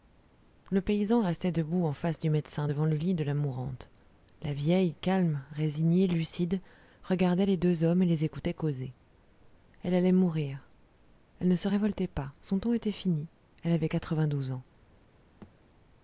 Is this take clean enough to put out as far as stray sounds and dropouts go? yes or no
no